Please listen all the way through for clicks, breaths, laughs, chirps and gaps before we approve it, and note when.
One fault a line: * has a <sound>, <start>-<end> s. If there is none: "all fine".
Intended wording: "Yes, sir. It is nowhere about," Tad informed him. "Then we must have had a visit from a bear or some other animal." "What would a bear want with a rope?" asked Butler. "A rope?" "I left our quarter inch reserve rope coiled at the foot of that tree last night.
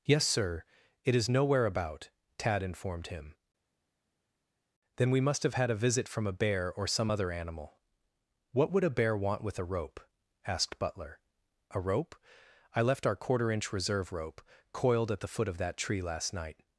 all fine